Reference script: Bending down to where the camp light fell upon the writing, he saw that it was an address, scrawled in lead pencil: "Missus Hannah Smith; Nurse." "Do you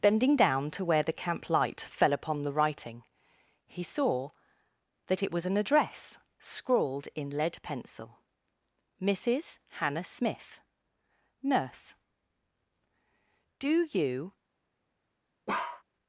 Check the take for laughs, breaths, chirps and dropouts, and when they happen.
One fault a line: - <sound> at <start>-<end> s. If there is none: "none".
- bark at 15.5-15.8 s